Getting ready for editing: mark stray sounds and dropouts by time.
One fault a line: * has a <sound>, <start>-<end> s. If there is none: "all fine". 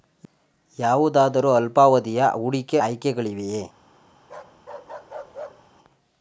* has a bark, 4.2-5.7 s